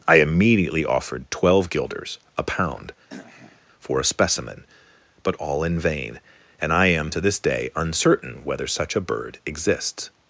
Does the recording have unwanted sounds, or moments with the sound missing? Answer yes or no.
yes